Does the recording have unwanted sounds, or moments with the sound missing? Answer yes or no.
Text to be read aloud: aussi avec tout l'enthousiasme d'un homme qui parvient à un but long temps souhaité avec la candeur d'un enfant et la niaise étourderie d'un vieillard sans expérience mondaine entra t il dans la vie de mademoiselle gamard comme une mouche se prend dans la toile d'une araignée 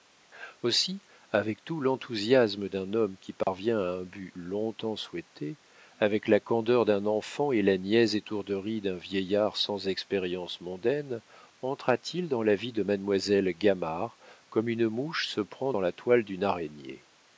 yes